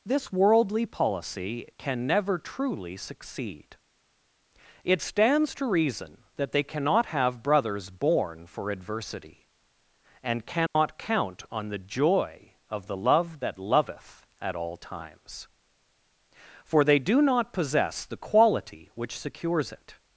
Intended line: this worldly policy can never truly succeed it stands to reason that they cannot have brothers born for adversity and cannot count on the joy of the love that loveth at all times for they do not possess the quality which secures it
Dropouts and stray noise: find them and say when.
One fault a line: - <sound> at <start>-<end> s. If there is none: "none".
- dropout at 10.7-10.8 s